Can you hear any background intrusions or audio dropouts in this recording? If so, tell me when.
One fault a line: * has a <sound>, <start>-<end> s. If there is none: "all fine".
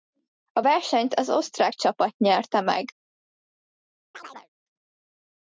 * has a chirp, 4.1-4.5 s